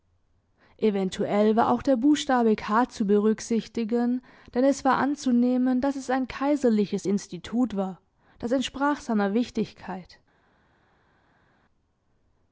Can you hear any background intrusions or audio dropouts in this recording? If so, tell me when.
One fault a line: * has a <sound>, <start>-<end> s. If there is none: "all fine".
all fine